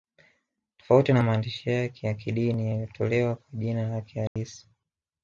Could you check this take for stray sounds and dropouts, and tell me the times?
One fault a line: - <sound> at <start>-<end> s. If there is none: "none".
- dropout at 4.3-4.4 s